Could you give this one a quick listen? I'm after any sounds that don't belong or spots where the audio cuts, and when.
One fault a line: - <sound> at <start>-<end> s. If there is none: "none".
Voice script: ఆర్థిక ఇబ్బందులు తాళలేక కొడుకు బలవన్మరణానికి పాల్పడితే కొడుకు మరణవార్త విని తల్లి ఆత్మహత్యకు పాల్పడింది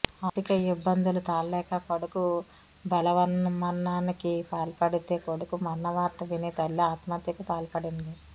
none